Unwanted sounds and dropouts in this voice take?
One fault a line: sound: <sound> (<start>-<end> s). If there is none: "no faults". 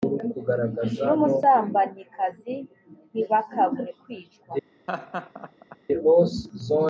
sound: laugh (4.9-5.8 s)